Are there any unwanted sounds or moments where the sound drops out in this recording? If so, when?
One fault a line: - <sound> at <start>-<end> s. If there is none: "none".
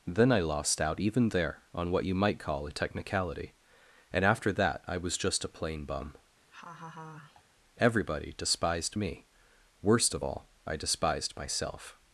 - laugh at 6.5-7.4 s